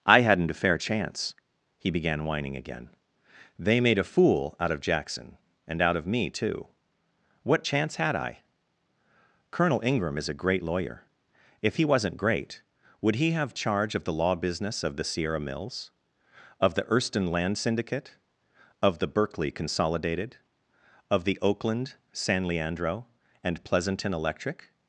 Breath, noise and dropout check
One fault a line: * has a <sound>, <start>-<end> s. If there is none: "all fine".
all fine